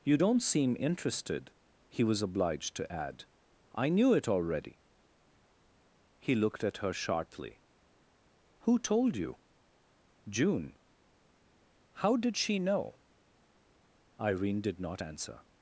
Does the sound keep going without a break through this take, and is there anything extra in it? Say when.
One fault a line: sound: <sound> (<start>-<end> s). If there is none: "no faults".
no faults